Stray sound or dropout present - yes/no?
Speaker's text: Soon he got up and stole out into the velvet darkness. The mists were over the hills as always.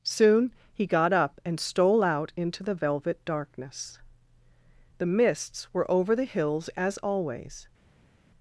no